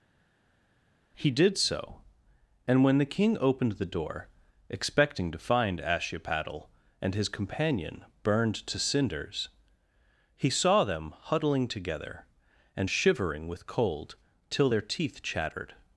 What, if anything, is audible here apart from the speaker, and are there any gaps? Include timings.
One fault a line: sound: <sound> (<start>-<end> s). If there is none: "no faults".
no faults